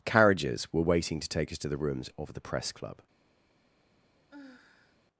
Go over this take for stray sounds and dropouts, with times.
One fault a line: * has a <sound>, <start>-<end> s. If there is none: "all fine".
* has a sigh, 4.3-5.0 s